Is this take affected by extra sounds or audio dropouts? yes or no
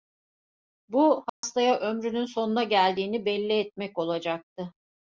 yes